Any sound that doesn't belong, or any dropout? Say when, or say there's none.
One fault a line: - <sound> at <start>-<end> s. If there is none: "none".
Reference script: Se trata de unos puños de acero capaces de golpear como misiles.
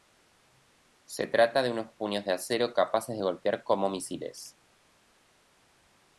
none